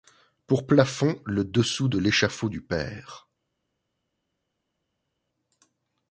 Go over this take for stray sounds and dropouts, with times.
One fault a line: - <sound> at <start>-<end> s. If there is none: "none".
none